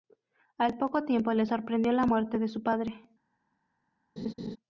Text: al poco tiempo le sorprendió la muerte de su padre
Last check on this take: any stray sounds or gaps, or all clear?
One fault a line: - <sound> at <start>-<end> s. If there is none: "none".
- laugh at 4.2-4.6 s